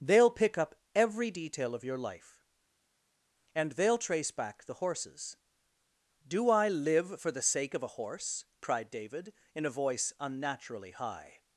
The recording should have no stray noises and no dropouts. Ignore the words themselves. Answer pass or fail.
pass